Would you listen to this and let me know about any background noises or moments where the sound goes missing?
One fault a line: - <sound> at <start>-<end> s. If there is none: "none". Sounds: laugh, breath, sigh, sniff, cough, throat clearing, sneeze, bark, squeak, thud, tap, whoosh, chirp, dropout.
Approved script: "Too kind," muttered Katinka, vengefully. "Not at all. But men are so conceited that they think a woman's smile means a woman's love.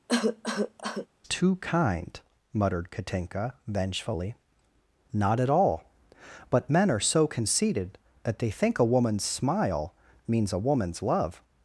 - cough at 0.1-1.1 s